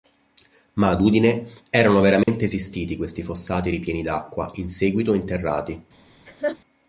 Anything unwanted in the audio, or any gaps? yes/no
yes